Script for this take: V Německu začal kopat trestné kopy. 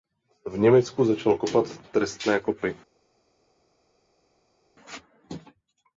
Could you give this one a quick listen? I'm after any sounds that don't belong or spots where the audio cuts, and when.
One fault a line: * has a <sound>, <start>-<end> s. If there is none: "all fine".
all fine